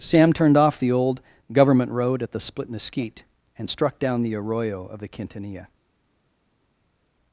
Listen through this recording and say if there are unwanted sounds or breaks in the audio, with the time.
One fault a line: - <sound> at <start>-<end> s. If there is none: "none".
none